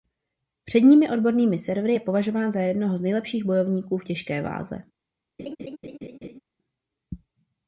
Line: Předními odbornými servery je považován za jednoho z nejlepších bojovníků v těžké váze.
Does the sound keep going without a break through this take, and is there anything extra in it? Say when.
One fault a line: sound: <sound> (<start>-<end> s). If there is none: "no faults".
sound: laugh (5.4-6.4 s)